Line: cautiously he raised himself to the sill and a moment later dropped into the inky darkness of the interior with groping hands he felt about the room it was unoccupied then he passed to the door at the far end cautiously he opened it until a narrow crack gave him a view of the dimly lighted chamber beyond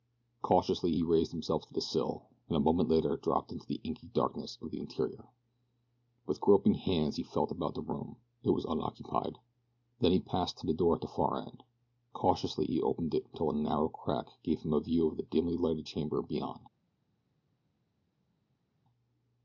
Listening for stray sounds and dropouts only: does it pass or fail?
pass